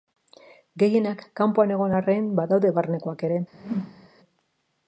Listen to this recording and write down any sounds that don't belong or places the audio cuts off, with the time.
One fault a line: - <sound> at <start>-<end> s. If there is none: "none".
- whoosh at 3.5-4.1 s